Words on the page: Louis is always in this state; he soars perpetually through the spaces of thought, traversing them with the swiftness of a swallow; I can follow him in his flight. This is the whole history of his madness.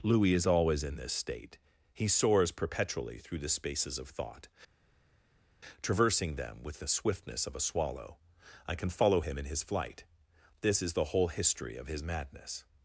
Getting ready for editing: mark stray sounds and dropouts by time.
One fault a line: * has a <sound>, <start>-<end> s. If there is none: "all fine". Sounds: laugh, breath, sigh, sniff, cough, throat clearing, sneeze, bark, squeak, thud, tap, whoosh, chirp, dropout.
all fine